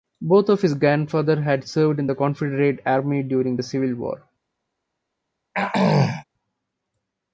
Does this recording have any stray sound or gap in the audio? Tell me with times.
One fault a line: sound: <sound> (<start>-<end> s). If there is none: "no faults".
sound: throat clearing (5.5-6.2 s)